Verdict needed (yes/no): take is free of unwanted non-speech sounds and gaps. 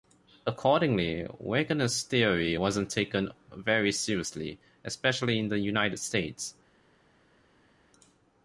yes